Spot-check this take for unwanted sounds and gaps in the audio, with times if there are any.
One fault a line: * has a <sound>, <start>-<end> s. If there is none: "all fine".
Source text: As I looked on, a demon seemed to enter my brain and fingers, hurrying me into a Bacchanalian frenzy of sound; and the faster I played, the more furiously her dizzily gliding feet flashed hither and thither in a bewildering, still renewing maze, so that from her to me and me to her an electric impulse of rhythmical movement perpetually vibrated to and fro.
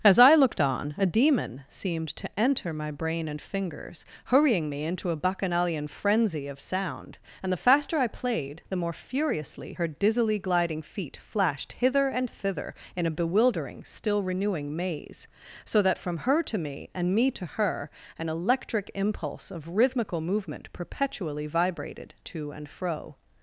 all fine